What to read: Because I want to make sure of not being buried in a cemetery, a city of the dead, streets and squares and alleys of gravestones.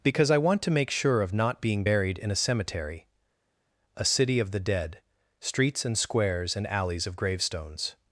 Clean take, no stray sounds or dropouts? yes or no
yes